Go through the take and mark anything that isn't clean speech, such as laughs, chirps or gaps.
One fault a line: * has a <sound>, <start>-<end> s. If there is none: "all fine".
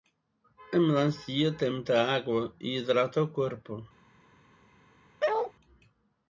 * has a bark, 5.2-5.5 s